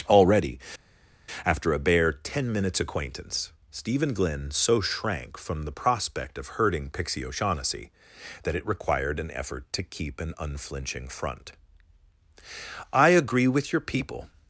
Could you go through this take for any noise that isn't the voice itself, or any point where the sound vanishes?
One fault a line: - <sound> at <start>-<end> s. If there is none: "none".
none